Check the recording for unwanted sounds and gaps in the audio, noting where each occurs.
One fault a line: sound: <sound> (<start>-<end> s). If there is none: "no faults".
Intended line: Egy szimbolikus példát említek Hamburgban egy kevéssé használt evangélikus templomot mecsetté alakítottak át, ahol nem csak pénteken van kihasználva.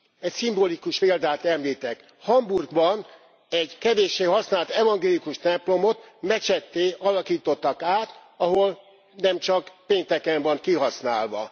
no faults